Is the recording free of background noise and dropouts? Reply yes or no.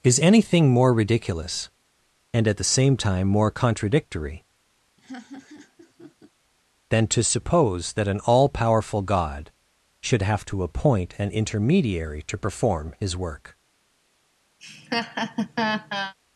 no